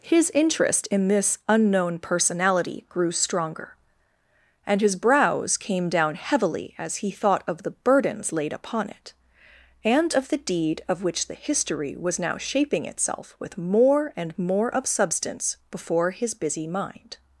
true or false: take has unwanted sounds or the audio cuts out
false